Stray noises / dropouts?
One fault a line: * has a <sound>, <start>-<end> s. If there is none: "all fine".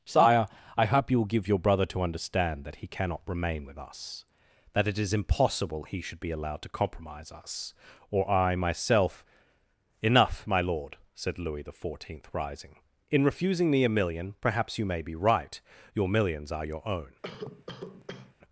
* has a cough, 17.2-18.3 s